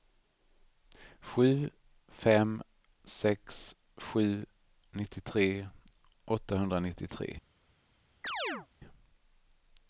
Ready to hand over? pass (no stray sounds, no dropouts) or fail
fail